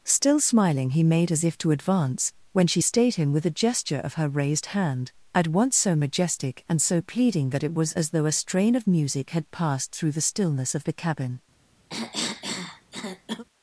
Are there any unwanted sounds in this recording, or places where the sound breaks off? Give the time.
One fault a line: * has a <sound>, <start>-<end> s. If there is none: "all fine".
* has a cough, 11.9-13.4 s